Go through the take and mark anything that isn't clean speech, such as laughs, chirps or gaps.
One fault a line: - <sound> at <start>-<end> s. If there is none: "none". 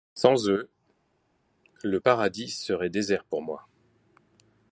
none